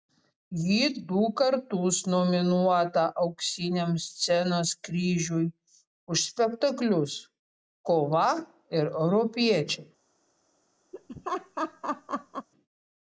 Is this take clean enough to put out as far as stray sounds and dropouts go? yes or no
no